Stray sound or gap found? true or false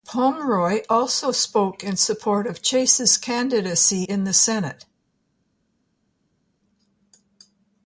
false